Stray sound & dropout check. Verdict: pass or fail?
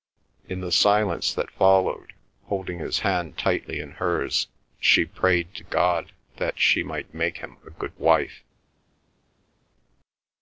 pass